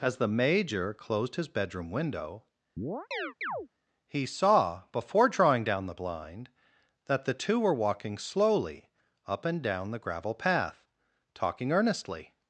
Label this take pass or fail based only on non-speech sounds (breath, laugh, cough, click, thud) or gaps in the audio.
fail